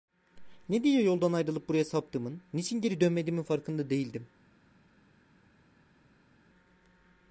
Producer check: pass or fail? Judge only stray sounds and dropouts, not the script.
pass